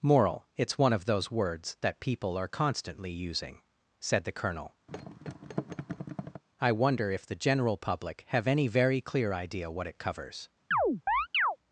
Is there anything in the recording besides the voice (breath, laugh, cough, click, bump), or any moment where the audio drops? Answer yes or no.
yes